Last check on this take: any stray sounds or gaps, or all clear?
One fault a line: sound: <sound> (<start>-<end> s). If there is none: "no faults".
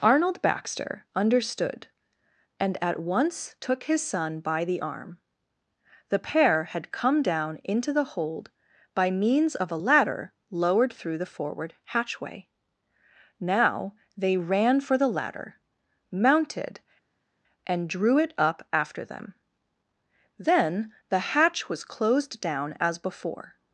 no faults